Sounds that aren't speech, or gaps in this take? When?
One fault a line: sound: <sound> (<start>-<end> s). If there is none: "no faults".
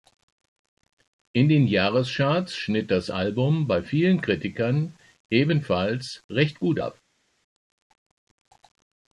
no faults